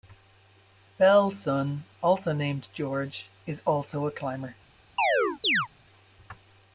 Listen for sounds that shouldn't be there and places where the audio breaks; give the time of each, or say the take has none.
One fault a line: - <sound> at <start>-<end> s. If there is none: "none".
- chirp at 5.0-5.7 s